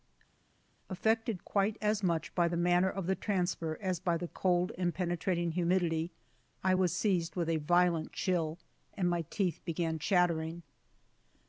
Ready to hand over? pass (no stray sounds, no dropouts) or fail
pass